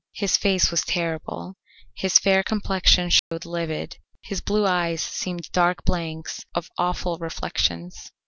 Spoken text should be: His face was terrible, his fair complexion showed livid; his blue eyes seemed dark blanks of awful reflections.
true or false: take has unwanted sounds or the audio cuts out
true